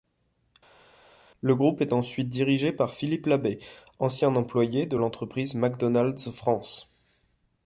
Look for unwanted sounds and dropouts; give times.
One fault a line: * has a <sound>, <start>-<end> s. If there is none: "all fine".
all fine